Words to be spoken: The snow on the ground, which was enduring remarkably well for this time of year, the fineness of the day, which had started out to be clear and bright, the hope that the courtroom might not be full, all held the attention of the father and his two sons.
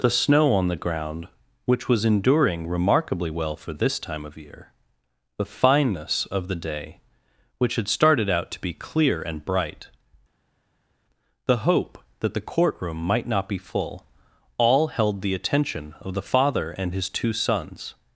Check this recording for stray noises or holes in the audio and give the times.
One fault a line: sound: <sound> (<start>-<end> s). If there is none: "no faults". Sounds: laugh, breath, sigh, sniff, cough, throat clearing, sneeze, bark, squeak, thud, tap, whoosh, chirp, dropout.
no faults